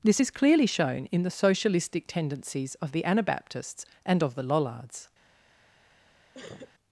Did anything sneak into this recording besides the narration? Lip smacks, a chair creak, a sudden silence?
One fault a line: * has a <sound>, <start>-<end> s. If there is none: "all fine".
* has a sneeze, 6.3-6.7 s